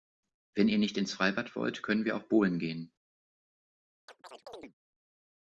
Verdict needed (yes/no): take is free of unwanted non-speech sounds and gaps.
no